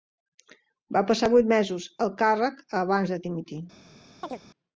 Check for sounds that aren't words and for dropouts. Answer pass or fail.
fail